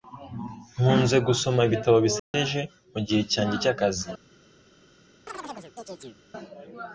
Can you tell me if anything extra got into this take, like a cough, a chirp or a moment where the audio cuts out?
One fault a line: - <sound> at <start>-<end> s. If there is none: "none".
- dropout at 2.2-2.3 s
- chirp at 5.3-6.2 s